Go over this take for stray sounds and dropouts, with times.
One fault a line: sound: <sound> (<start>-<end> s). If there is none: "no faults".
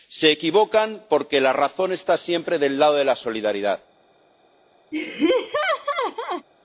sound: laugh (4.9-6.5 s)